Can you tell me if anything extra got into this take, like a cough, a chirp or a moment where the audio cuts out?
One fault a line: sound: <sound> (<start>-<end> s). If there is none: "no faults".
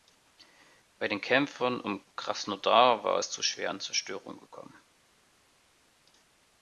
no faults